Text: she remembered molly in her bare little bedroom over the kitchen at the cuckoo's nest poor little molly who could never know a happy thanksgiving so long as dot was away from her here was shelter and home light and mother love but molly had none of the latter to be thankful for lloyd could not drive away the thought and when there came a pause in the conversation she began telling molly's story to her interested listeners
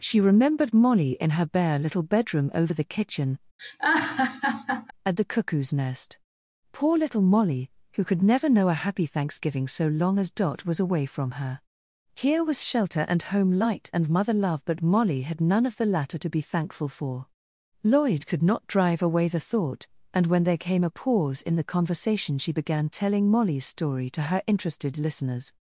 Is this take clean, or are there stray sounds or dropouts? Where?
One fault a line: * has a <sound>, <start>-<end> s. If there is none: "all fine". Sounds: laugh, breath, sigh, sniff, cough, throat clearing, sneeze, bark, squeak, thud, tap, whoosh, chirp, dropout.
* has a laugh, 3.6-4.9 s